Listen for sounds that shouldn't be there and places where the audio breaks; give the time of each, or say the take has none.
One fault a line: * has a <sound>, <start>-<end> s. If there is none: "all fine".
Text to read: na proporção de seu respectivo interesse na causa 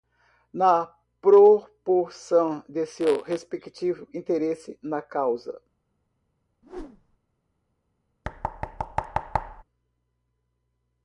* has a whoosh, 6.6-7.2 s
* has a thud, 8.2-9.6 s